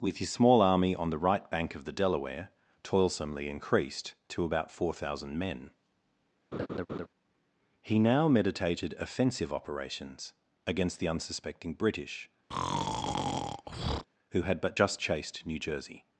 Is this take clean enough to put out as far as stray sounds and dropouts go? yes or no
no